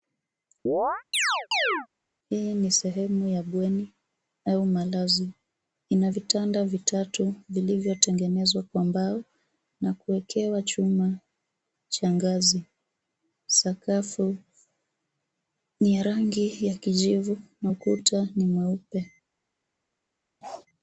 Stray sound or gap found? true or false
true